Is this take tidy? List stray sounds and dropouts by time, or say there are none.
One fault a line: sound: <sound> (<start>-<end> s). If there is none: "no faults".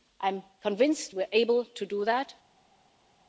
no faults